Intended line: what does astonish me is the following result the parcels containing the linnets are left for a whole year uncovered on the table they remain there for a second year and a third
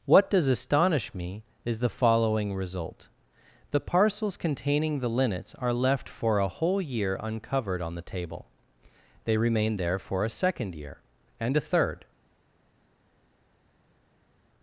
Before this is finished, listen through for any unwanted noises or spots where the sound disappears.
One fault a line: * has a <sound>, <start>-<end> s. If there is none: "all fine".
all fine